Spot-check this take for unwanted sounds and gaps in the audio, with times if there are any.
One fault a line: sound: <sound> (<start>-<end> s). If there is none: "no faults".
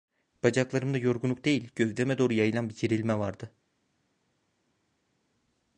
no faults